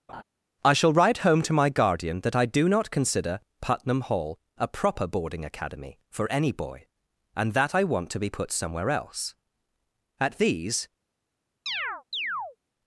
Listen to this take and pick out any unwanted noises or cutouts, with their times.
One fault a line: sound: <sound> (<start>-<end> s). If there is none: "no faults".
sound: laugh (0.1-0.2 s)
sound: chirp (11.7-12.6 s)